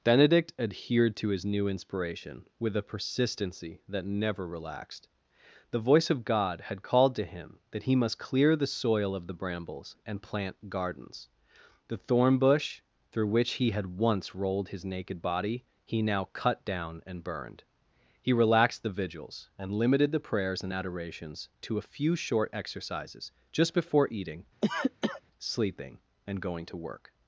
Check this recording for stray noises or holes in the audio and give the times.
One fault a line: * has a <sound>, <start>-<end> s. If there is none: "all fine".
* has a cough, 24.6-25.2 s